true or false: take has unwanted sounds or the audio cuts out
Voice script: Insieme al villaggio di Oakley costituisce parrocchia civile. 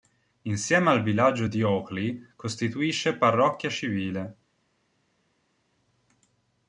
false